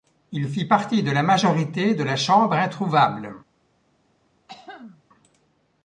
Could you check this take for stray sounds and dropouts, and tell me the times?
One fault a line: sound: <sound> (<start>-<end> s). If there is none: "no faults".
sound: throat clearing (4.5-5.0 s)